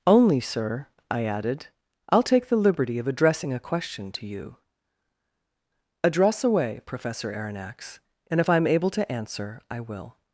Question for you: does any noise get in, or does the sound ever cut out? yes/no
no